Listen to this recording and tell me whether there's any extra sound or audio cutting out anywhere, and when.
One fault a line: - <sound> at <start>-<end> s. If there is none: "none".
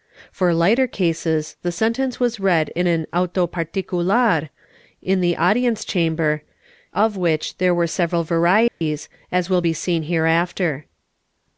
- dropout at 8.7-8.8 s